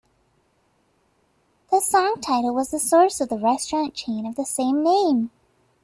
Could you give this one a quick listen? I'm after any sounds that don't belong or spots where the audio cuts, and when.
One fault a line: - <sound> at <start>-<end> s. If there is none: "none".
none